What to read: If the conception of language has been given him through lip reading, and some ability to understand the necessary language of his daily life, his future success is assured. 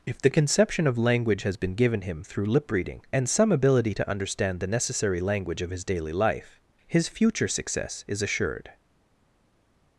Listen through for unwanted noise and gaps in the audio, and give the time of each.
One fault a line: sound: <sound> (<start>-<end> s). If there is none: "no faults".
no faults